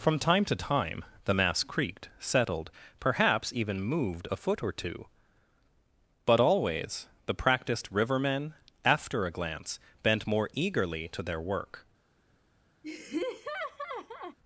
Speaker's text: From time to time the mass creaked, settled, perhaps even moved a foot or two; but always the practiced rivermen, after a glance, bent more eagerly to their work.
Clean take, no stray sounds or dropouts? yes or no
no